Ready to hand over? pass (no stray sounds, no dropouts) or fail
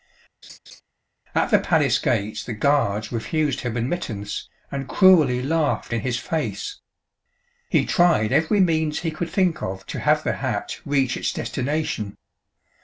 fail